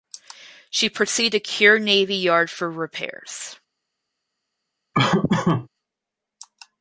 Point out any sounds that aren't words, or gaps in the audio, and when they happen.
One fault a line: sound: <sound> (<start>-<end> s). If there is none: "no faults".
sound: laugh (4.9-5.7 s)